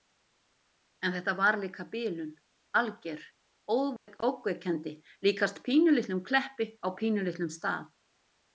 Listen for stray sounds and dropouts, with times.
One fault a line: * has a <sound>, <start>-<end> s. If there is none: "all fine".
* has a dropout, 4.0-4.1 s